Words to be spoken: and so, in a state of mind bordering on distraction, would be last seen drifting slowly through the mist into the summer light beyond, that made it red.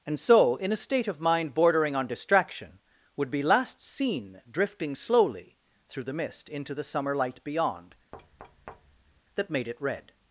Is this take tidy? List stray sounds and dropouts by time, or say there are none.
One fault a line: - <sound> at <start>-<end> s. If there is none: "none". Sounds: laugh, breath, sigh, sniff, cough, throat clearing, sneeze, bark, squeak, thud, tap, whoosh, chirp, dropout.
- thud at 8.1-9.2 s